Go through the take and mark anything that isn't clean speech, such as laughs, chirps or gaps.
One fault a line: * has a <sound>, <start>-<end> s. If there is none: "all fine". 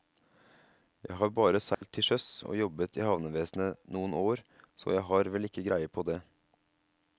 * has a dropout, 1.7-1.8 s